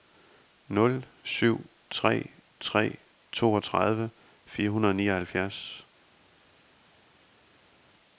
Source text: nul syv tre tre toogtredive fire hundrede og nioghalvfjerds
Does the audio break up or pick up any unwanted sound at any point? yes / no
no